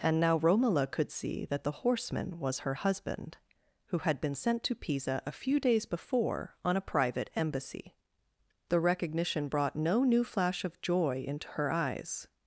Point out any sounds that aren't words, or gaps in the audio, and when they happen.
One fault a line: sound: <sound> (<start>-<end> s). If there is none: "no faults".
no faults